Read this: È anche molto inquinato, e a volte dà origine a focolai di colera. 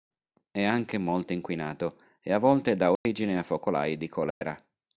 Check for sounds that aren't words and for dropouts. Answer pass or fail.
fail